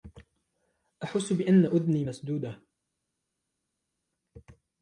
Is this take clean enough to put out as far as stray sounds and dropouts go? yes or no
yes